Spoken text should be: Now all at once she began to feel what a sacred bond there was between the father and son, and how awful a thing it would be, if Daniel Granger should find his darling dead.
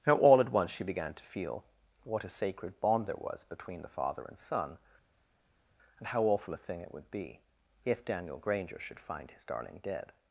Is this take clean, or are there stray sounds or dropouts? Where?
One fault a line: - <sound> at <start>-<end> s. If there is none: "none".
none